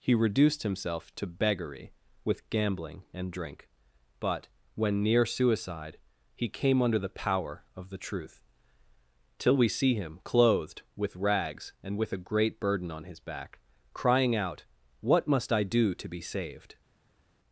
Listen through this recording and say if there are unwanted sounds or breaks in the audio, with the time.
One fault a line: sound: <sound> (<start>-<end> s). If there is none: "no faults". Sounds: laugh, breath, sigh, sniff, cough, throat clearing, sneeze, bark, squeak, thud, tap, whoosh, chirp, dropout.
no faults